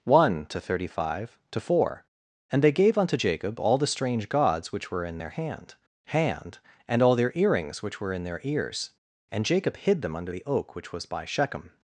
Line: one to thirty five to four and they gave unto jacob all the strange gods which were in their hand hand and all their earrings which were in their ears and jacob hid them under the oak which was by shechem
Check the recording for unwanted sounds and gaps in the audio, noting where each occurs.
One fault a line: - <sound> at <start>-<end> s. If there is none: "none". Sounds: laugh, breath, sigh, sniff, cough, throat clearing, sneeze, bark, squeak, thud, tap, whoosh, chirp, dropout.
none